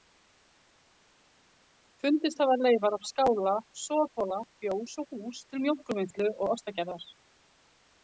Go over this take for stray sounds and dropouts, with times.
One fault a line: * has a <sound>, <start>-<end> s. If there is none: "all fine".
all fine